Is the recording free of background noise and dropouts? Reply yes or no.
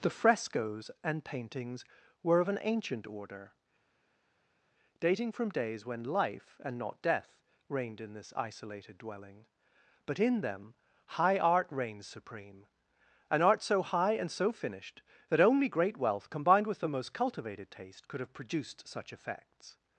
yes